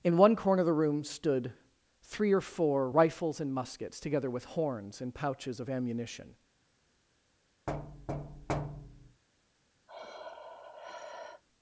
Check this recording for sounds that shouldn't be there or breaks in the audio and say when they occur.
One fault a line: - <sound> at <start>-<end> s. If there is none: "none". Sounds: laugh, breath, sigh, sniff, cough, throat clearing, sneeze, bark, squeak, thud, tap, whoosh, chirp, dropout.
- thud at 7.7-9.2 s
- sigh at 9.9-11.4 s